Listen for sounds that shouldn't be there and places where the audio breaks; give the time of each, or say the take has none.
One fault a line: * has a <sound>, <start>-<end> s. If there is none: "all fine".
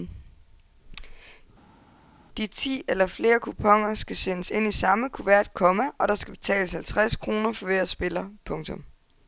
all fine